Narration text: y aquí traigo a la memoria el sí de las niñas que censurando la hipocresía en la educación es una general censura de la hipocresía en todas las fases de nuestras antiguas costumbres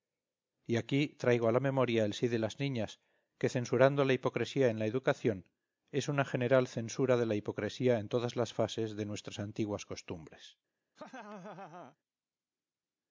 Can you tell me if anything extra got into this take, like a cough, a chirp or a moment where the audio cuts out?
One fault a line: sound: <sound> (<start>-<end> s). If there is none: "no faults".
sound: laugh (11.0-12.0 s)